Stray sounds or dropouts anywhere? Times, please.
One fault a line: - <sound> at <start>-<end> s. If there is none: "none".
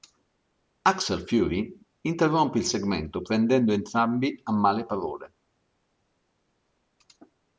none